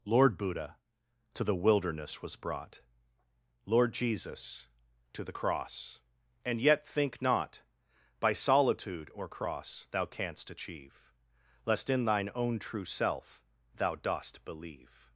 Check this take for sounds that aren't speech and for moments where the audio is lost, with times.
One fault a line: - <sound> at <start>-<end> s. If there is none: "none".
none